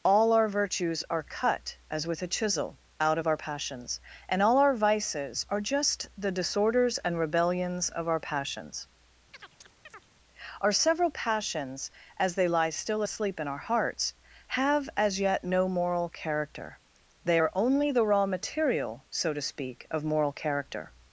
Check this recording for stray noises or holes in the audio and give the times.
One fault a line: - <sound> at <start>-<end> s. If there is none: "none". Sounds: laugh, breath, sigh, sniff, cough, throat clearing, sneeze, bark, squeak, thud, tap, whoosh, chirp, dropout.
- chirp at 9.3-10.1 s